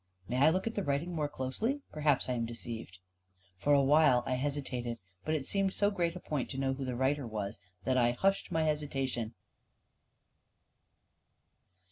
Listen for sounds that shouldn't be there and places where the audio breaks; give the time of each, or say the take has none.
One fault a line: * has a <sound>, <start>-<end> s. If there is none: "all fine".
all fine